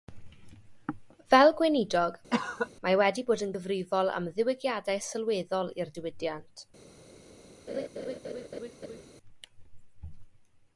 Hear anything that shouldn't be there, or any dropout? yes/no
yes